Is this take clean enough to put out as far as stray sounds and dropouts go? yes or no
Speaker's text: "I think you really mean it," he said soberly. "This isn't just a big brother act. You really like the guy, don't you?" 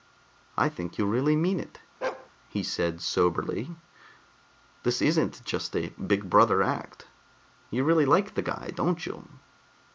no